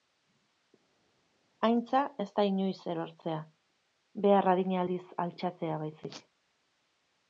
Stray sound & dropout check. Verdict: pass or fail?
pass